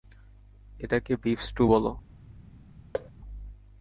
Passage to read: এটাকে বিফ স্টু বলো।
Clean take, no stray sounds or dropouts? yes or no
no